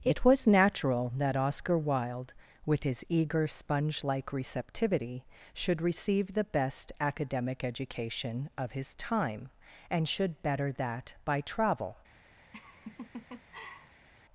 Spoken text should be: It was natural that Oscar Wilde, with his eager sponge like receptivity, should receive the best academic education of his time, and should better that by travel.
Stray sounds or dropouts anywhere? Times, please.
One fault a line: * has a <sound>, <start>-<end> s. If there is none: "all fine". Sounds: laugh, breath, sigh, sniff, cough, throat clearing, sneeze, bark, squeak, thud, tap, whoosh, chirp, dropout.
* has a laugh, 12.5-14.1 s